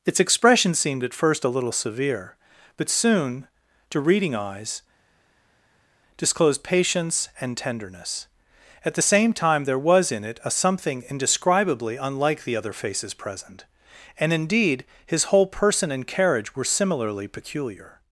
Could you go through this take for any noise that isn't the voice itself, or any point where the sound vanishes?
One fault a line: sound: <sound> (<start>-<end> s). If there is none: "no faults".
no faults